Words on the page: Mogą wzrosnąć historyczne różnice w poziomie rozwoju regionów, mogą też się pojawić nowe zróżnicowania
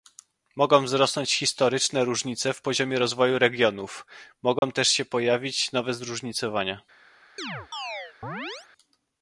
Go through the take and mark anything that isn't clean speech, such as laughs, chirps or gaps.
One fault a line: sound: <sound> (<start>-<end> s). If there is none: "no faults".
sound: dropout (4.6-4.6 s)
sound: chirp (7.4-8.7 s)